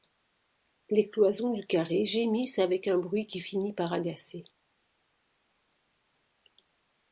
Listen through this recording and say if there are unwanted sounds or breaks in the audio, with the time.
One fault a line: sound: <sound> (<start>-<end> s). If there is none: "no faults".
no faults